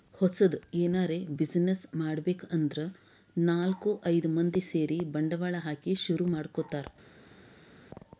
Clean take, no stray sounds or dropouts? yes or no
yes